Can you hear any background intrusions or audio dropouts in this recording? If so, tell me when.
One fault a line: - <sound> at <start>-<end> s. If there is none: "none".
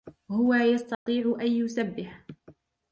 - dropout at 0.9-1.1 s